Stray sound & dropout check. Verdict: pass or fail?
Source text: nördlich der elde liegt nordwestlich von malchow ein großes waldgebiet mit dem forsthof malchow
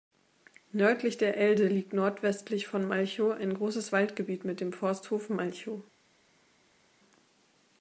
pass